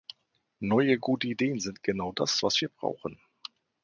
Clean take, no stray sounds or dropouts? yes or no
yes